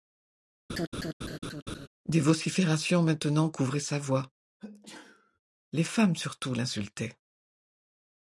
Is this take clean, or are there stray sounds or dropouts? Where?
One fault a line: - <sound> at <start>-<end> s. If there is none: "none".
- laugh at 0.7-1.9 s
- sneeze at 4.6-5.4 s